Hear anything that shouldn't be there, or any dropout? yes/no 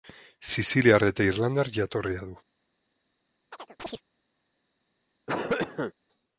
yes